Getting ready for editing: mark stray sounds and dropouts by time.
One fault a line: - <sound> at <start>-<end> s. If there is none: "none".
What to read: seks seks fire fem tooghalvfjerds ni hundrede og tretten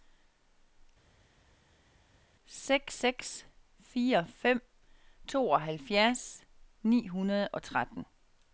none